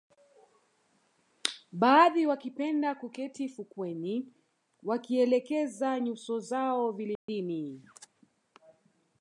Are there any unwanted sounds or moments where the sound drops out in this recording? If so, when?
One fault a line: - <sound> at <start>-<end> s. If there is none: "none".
- dropout at 7.2-7.3 s